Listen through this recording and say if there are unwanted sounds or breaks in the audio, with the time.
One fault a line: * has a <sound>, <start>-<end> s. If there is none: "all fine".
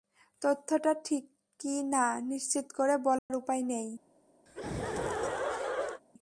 * has a dropout, 3.2-3.3 s
* has a laugh, 4.5-6.0 s